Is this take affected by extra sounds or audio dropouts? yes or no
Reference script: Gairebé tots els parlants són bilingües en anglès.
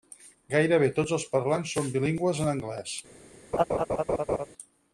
yes